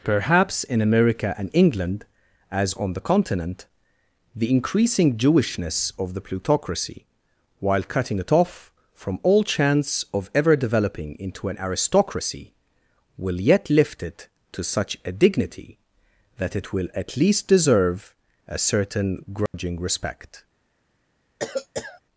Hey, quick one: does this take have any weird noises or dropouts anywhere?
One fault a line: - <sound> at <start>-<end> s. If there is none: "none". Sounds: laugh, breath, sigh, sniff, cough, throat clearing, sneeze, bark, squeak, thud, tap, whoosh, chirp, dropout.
- dropout at 19.5-19.5 s
- cough at 21.4-22.0 s